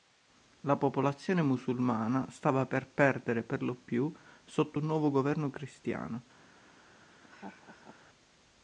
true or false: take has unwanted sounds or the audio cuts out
true